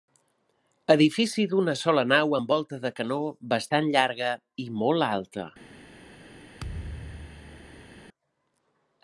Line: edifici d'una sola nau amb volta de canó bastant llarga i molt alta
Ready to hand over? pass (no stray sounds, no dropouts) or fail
fail